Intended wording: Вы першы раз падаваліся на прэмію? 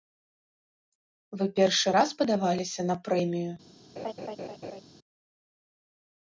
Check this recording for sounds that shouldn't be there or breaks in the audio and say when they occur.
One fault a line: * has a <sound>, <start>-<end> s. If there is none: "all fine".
* has a laugh, 4.0-4.8 s